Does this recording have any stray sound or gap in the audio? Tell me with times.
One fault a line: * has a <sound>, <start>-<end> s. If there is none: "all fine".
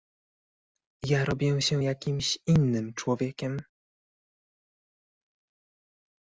all fine